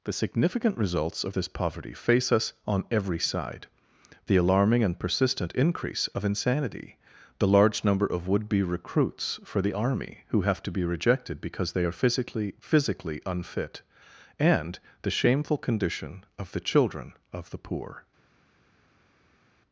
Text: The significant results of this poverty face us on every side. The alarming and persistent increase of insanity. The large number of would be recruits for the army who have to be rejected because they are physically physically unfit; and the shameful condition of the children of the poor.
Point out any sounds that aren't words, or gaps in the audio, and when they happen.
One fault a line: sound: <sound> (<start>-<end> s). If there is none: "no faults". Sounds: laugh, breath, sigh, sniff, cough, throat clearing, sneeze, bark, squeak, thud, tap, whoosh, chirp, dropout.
no faults